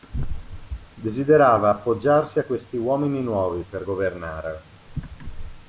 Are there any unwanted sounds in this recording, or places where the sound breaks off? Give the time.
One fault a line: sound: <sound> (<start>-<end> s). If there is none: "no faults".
no faults